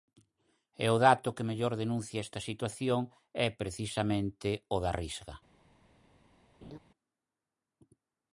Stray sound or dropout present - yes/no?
yes